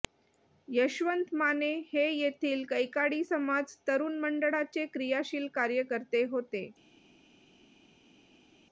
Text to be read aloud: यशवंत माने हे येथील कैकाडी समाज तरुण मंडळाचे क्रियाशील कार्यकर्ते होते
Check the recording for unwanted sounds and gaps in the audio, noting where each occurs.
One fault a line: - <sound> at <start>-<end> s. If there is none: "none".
none